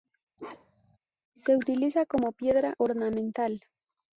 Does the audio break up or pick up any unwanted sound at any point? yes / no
yes